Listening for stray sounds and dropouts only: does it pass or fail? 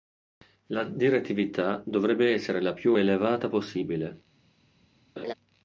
fail